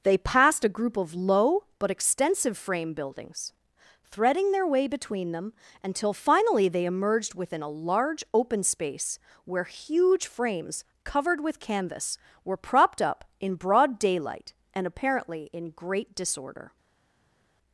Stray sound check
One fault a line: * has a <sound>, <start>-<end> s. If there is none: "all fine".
all fine